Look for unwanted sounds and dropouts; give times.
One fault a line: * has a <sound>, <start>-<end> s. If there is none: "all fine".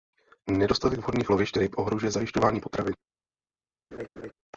* has a laugh, 3.9-4.3 s